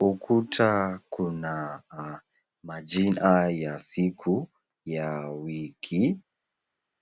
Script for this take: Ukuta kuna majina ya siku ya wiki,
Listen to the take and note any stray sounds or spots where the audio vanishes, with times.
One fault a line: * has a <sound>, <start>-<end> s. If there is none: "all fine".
all fine